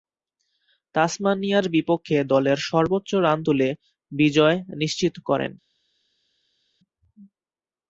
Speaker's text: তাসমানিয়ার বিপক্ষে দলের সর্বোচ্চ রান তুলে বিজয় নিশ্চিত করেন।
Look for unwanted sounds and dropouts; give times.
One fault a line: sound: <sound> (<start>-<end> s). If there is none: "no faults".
no faults